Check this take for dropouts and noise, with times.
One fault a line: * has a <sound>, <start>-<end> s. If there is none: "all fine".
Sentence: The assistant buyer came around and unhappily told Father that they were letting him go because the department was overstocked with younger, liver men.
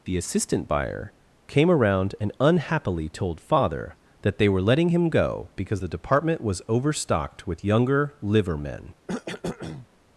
* has a cough, 9.1-9.9 s